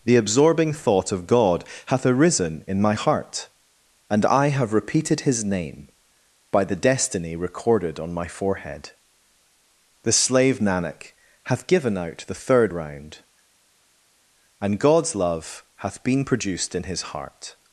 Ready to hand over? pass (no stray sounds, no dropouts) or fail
pass